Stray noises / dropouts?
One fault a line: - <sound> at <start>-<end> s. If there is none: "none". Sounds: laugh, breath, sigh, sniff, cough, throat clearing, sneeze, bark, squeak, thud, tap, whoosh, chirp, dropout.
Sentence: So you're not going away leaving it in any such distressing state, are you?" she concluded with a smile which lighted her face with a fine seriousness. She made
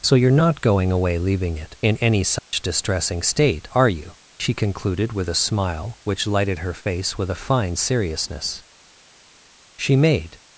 - dropout at 2.4-2.5 s